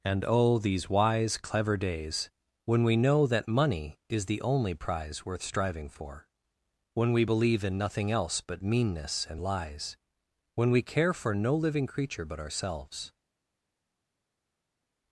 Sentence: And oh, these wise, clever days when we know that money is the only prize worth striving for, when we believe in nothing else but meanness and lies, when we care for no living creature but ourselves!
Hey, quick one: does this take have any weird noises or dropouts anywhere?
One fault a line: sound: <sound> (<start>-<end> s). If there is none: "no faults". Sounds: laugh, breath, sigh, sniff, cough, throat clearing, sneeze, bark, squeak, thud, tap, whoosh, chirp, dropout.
no faults